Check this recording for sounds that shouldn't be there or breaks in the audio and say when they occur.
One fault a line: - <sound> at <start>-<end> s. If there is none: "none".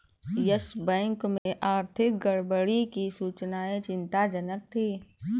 - dropout at 1.4-1.5 s